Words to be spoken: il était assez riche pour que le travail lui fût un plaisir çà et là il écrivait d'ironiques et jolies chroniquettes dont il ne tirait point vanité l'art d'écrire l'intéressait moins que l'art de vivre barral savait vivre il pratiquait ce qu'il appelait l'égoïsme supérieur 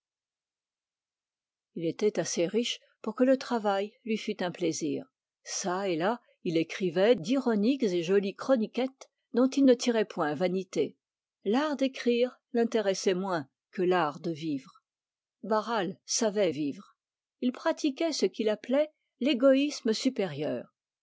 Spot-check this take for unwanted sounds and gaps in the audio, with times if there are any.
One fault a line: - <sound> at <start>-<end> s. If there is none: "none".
none